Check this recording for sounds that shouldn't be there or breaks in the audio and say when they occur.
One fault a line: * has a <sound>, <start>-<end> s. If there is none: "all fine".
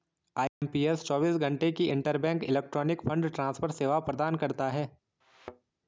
* has a dropout, 0.5-0.6 s
* has a thud, 5.2-5.7 s